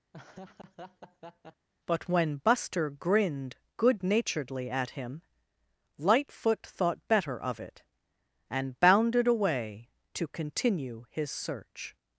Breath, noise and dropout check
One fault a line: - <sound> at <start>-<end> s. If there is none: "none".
- laugh at 0.1-1.7 s